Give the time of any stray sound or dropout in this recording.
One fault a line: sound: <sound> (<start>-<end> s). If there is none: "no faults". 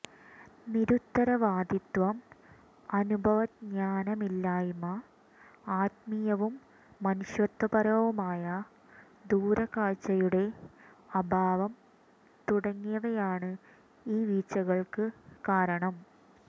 no faults